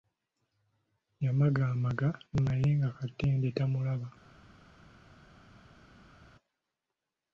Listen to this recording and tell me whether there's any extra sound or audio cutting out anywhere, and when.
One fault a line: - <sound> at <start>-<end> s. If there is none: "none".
none